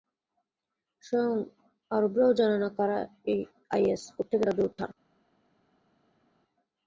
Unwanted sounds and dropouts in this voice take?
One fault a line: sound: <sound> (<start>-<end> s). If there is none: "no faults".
no faults